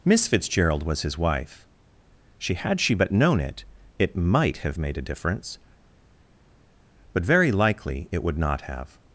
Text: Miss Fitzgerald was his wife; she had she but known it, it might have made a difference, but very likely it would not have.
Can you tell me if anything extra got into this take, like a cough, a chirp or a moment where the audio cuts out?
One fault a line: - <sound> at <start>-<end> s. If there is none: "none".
none